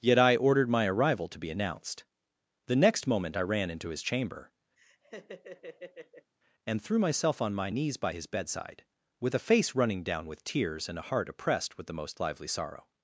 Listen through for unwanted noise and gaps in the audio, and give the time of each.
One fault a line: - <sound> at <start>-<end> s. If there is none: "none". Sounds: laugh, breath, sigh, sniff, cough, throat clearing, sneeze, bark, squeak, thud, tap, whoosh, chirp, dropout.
- laugh at 4.8-6.3 s